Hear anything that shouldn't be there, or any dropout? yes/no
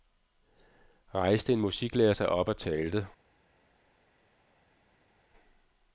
no